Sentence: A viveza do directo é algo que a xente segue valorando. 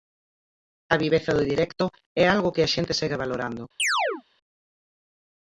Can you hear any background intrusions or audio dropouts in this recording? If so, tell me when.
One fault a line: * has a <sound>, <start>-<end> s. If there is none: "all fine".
* has a chirp, 3.8-4.2 s